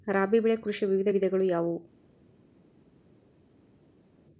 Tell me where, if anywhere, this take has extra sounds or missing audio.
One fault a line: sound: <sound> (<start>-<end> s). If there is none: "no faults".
no faults